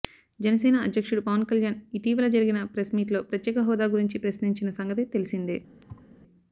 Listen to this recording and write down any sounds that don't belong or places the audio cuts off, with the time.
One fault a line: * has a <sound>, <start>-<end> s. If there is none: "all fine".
* has a thud, 5.8-6.1 s